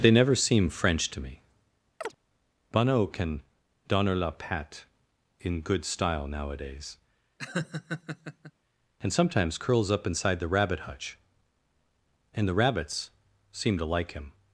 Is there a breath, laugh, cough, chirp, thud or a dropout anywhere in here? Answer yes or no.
yes